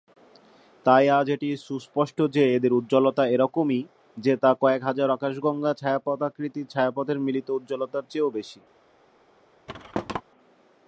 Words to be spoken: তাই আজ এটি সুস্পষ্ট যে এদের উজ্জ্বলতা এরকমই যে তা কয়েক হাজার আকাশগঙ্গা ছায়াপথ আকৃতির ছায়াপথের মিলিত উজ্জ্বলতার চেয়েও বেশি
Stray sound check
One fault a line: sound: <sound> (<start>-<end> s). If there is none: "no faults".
sound: thud (9.7-10.2 s)